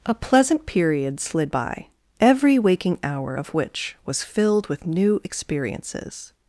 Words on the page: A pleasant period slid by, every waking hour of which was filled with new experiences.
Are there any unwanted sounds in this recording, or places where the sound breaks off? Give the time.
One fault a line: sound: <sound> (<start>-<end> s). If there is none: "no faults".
no faults